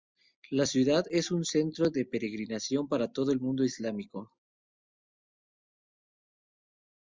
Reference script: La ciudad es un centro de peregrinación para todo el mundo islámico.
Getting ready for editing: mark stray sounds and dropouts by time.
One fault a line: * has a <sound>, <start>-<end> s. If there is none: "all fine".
all fine